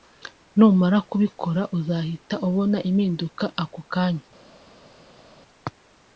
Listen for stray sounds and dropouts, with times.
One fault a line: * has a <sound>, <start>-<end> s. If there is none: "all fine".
all fine